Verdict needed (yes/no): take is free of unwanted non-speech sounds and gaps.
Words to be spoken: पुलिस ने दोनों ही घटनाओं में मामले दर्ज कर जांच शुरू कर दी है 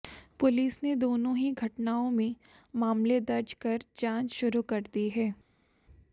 yes